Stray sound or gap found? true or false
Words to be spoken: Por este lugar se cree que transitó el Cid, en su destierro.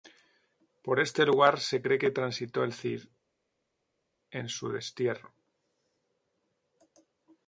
false